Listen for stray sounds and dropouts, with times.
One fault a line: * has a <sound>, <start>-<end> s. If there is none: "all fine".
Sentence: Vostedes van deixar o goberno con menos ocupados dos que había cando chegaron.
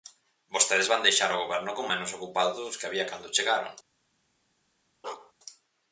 * has a bark, 5.0-5.3 s